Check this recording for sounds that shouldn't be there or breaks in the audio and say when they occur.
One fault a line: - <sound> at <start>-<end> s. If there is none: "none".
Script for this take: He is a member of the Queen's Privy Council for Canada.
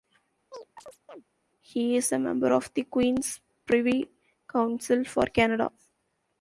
- chirp at 0.5-1.2 s